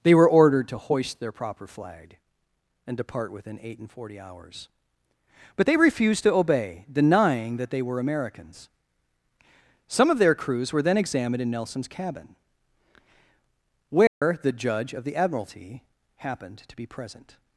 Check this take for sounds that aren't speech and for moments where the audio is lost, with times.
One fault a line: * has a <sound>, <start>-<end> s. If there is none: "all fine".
* has a dropout, 14.1-14.2 s